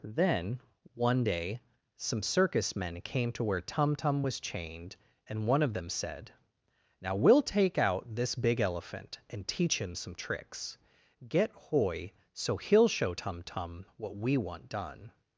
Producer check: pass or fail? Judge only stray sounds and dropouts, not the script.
pass